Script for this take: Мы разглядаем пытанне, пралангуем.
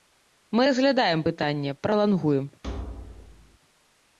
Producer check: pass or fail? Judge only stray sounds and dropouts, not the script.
fail